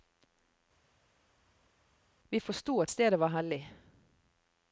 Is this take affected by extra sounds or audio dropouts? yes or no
no